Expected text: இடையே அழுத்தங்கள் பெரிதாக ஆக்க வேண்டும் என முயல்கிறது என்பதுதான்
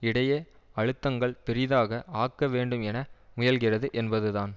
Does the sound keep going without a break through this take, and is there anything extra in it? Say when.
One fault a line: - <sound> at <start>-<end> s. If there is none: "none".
none